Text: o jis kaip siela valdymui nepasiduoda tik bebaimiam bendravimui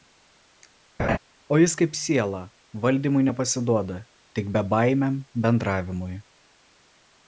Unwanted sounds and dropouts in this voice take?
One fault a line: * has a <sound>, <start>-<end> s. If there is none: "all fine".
* has a laugh, 1.0-1.2 s